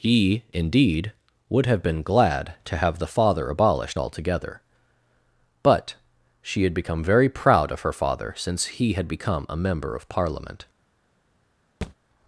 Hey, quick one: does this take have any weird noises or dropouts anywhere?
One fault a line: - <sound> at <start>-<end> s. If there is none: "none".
- thud at 11.8-12.0 s